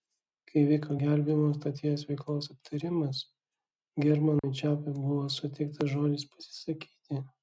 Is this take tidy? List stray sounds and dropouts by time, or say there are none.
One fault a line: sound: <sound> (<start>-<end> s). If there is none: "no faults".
sound: dropout (4.4-4.4 s)